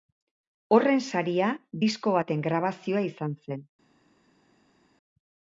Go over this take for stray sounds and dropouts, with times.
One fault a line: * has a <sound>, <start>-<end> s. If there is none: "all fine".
all fine